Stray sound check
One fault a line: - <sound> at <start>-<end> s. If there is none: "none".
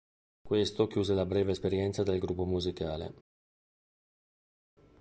none